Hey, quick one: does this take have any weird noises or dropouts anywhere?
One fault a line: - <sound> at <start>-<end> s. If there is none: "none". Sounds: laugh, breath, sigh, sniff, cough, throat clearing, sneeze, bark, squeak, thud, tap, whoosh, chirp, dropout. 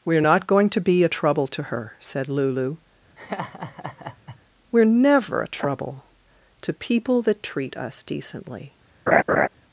- laugh at 3.2-4.4 s
- laugh at 9.1-9.5 s